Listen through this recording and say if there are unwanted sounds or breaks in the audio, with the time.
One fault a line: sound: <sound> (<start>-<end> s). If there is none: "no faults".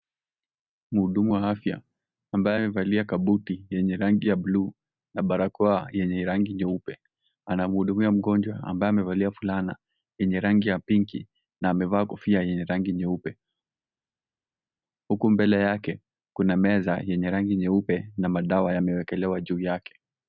no faults